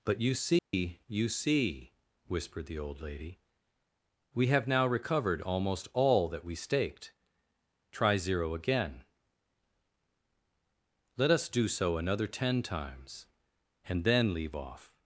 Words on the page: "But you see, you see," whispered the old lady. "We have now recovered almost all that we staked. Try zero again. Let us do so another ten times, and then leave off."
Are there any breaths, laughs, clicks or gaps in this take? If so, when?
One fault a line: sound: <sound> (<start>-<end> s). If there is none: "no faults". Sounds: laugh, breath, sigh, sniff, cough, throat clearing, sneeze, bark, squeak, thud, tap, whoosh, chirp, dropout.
sound: dropout (0.6-0.7 s)